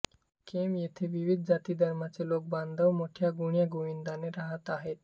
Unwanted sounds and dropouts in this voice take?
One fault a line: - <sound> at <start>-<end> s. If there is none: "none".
none